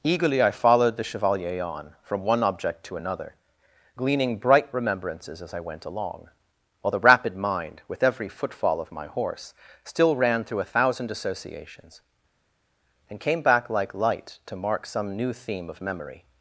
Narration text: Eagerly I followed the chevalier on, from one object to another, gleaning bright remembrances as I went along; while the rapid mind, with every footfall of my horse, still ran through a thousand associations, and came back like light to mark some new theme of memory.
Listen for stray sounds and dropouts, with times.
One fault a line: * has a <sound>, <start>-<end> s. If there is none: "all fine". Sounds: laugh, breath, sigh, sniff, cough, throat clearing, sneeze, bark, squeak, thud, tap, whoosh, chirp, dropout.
all fine